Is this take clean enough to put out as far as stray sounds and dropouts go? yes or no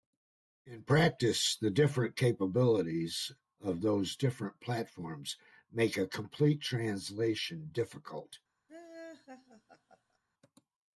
no